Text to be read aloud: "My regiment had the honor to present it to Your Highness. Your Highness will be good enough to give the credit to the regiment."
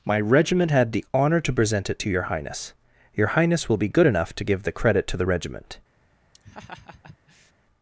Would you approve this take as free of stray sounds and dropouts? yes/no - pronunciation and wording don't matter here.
no